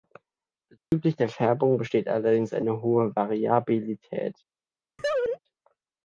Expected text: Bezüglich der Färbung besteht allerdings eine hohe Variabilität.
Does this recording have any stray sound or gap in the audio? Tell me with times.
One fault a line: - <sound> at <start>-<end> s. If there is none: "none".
- dropout at 0.8-0.9 s
- laugh at 5.0-5.4 s